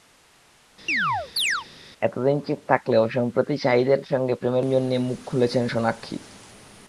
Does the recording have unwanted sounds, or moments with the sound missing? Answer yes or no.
yes